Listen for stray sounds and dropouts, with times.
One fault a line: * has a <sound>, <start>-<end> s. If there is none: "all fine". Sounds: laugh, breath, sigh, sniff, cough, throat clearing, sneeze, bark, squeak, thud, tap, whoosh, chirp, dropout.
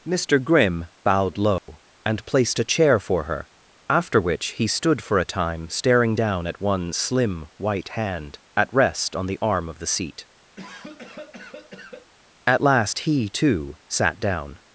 * has a dropout, 1.6-1.7 s
* has a cough, 10.6-12.1 s